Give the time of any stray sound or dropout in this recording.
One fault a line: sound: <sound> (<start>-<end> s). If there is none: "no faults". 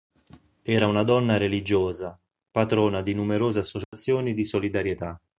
sound: dropout (3.8-3.9 s)